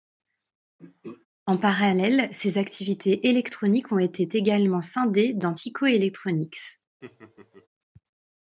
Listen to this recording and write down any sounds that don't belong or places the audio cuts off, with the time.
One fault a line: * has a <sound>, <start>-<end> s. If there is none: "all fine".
* has a throat clearing, 0.8-1.3 s
* has a laugh, 7.0-7.7 s